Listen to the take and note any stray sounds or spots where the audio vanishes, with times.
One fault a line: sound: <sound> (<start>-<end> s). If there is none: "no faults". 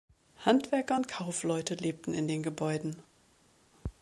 no faults